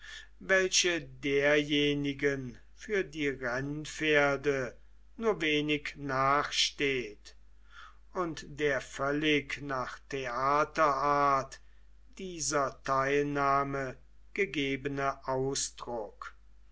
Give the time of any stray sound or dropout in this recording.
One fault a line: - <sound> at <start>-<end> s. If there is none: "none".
none